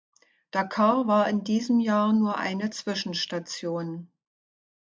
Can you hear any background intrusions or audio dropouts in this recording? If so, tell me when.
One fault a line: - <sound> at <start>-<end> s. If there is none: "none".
none